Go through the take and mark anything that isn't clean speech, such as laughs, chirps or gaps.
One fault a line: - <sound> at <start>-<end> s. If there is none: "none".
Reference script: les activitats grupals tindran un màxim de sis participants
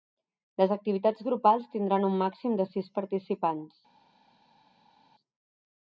none